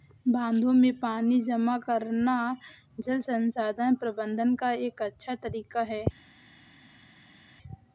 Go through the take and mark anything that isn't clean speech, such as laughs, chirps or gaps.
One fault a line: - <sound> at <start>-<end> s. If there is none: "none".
none